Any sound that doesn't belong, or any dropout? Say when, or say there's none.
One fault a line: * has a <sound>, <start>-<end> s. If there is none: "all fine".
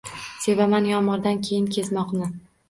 all fine